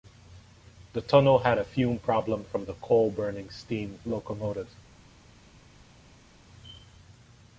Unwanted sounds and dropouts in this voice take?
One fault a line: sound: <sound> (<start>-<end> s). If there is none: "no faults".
no faults